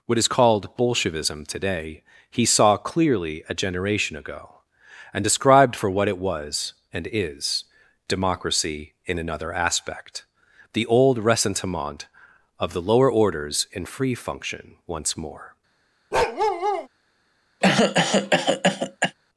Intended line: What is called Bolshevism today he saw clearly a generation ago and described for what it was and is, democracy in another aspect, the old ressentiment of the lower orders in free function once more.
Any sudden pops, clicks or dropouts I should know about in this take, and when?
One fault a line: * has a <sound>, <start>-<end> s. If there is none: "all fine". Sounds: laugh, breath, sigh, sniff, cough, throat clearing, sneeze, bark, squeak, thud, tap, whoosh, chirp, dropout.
* has a bark, 16.1-16.9 s
* has a cough, 17.6-19.2 s